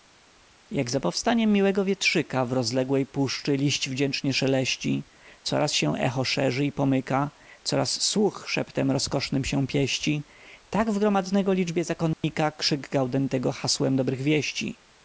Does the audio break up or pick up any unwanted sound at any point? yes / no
yes